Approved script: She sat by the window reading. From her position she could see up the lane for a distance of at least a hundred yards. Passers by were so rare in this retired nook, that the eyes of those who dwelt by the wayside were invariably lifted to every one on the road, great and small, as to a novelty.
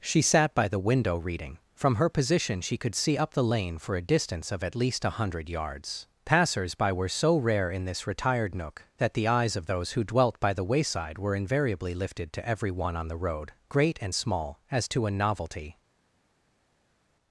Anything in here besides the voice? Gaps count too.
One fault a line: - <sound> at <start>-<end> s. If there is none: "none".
none